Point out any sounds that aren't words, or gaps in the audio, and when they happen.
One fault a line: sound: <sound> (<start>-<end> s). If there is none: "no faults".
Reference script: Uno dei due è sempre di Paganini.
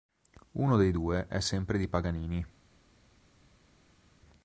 no faults